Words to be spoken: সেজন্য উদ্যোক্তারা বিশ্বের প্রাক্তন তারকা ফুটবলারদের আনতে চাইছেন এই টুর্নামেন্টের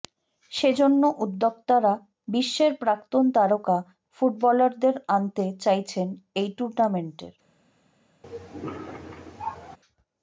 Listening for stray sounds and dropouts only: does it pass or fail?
fail